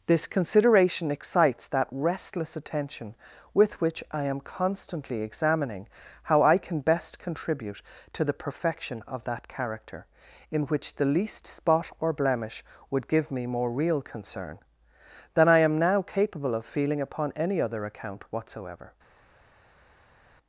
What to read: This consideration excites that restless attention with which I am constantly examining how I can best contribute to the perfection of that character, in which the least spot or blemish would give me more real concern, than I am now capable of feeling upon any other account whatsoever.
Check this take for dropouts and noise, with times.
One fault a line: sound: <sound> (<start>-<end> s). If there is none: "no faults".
no faults